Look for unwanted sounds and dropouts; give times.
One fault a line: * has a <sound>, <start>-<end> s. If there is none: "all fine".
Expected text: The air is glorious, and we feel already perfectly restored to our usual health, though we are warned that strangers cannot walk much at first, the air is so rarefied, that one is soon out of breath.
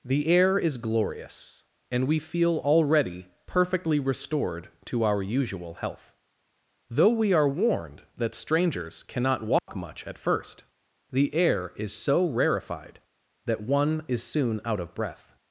* has a dropout, 9.6-9.7 s